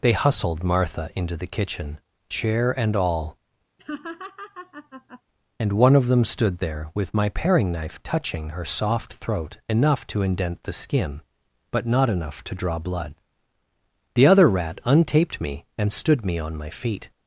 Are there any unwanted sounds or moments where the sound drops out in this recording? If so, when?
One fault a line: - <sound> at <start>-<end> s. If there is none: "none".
- laugh at 3.8-5.2 s